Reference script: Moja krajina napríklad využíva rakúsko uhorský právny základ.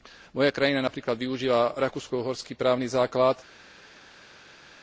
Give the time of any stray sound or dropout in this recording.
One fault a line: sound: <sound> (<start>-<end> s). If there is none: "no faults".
no faults